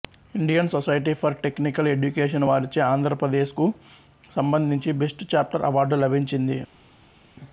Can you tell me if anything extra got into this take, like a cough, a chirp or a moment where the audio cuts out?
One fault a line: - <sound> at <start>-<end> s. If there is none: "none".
none